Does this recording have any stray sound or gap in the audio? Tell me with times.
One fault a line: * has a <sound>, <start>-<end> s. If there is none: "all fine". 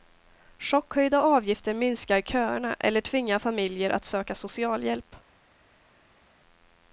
all fine